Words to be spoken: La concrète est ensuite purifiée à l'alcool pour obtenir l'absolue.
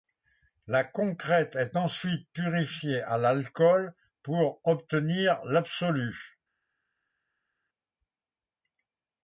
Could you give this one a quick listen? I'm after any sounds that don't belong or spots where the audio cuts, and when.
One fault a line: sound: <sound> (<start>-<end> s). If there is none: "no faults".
no faults